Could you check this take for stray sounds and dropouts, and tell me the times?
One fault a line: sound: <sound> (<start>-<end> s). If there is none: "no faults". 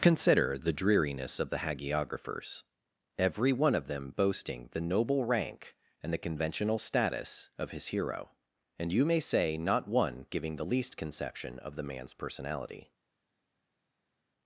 no faults